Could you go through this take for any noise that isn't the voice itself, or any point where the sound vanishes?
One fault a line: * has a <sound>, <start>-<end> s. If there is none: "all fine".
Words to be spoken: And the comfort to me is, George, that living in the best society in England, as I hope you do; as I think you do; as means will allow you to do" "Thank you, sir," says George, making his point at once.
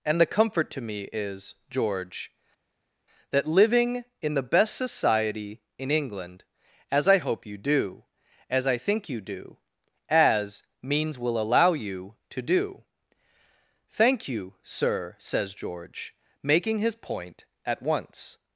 all fine